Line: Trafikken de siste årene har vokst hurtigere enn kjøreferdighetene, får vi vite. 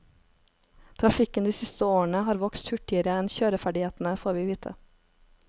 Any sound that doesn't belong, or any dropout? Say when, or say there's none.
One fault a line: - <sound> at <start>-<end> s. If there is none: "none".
none